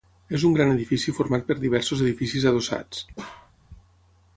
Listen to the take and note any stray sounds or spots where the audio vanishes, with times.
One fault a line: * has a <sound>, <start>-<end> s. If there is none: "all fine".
* has a bark, 3.2-3.5 s